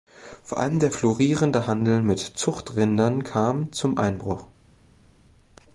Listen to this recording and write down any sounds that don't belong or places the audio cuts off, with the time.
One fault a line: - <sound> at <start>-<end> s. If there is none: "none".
none